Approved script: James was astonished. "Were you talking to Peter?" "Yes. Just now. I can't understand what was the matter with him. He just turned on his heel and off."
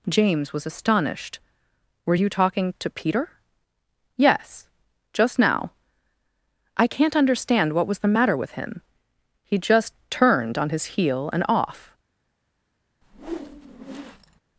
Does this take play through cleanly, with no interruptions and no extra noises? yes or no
no